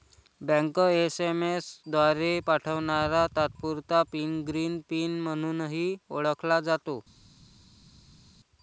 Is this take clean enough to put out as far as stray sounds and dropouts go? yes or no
yes